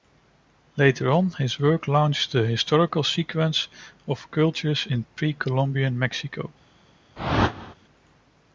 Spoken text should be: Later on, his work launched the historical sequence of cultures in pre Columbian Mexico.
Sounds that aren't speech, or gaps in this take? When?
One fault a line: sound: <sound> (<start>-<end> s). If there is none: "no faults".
sound: whoosh (7.2-7.7 s)